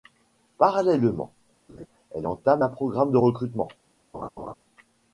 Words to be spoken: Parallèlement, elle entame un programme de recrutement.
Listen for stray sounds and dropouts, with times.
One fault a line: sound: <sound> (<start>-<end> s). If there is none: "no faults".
sound: laugh (1.7-1.9 s)
sound: laugh (4.1-4.5 s)